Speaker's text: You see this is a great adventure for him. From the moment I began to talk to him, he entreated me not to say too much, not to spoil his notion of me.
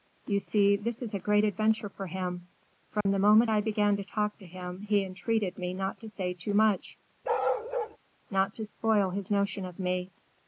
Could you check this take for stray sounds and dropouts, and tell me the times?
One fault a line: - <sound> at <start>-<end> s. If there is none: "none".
- dropout at 3.0-3.1 s
- bark at 7.2-8.0 s